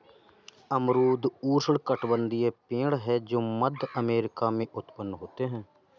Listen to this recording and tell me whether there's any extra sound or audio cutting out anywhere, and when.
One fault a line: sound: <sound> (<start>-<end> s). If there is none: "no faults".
no faults